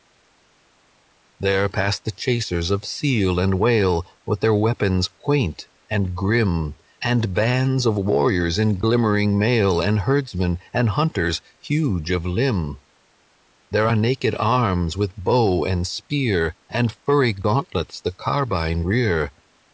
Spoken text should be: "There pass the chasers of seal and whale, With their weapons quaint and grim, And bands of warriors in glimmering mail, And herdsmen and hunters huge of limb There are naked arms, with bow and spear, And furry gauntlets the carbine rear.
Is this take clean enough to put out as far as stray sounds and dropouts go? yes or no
yes